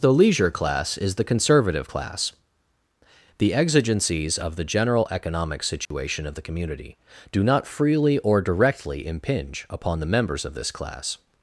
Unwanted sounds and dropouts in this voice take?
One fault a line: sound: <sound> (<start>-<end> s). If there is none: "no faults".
sound: dropout (5.9-5.9 s)